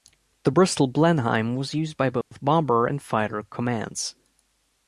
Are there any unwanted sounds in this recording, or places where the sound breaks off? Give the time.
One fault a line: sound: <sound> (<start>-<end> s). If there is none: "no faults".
sound: dropout (2.2-2.3 s)